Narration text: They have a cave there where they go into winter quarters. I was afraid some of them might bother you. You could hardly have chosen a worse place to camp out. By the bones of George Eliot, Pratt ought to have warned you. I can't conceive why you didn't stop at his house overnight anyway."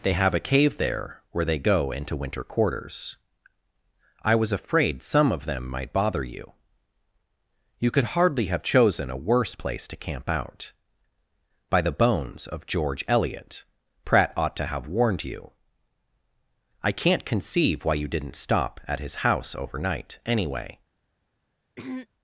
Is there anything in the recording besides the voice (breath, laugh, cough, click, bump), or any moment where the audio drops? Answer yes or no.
yes